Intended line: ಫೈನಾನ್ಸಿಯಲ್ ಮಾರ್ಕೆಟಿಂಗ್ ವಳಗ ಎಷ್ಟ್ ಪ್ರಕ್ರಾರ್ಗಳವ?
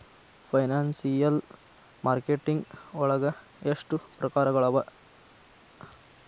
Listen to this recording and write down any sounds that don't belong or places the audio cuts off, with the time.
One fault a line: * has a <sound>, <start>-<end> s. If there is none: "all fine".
all fine